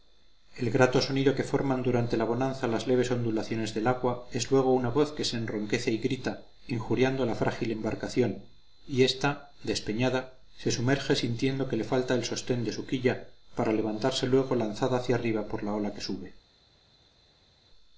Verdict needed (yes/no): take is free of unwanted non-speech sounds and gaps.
yes